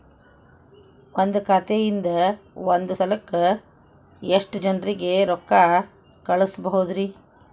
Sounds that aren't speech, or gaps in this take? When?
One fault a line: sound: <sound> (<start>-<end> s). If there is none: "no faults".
no faults